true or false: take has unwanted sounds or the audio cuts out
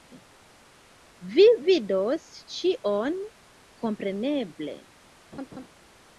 true